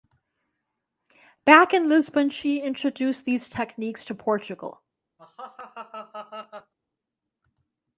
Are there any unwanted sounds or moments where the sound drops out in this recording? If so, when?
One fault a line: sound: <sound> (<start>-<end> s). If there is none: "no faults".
sound: laugh (5.2-6.7 s)